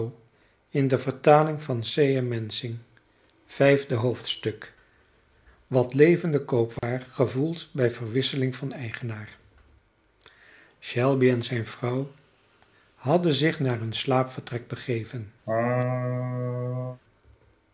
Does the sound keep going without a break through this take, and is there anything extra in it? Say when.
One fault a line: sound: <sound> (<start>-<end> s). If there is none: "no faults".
sound: dropout (6.8-6.8 s)
sound: laugh (15.5-17.0 s)